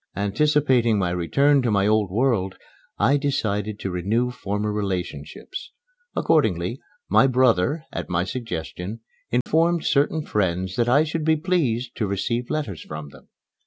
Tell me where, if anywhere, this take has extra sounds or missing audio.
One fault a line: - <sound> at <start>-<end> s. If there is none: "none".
- dropout at 9.4-9.5 s